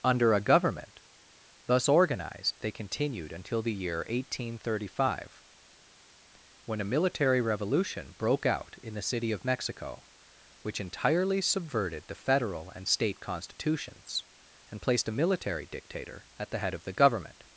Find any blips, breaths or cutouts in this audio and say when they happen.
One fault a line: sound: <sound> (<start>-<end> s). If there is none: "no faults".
no faults